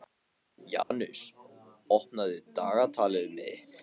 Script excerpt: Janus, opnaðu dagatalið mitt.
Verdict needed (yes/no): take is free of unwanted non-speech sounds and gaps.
no